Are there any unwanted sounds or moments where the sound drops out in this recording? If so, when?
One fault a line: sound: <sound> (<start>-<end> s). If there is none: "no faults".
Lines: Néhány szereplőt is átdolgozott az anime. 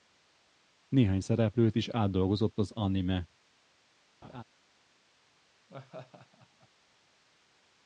sound: laugh (4.2-4.4 s)
sound: laugh (5.7-6.7 s)